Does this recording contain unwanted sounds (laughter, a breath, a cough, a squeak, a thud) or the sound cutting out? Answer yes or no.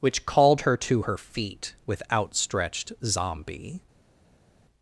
no